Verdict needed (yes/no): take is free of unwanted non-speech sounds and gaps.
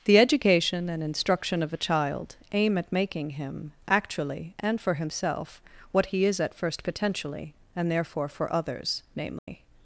no